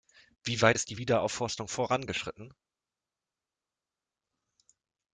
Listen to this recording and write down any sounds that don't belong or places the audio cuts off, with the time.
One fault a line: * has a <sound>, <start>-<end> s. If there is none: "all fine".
all fine